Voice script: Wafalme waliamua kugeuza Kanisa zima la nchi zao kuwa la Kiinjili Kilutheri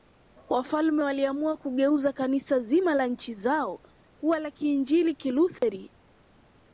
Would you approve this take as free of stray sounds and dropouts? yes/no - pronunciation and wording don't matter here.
no